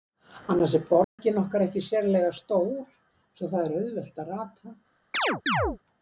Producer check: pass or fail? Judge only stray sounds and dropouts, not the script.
fail